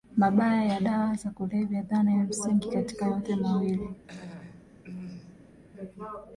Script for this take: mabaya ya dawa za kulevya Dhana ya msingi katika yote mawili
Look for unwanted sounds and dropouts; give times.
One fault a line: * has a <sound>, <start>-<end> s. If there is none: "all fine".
* has a throat clearing, 4.0-5.6 s